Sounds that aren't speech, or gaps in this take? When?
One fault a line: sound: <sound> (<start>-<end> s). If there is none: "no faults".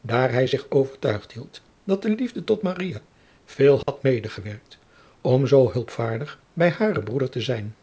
sound: dropout (3.8-3.9 s)